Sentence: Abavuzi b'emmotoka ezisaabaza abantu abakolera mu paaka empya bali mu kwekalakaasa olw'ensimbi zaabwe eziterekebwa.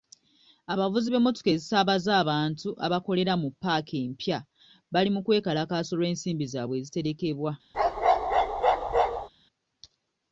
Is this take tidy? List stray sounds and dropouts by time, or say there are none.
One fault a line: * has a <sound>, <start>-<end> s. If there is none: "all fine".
* has a bark, 7.7-9.3 s